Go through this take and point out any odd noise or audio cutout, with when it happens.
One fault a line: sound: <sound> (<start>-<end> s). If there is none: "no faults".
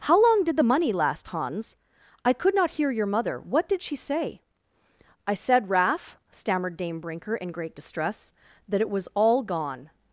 no faults